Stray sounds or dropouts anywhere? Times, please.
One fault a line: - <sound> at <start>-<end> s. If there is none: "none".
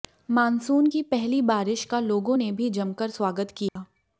- dropout at 3.7-3.8 s